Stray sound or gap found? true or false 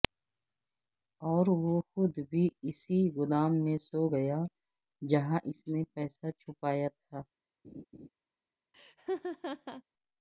true